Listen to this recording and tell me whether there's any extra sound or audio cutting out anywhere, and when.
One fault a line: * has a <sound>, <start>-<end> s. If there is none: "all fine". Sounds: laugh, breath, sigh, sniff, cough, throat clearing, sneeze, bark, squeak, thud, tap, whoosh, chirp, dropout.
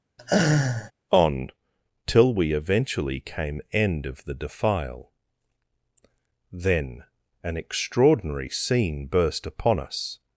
* has a laugh, 0.2-0.9 s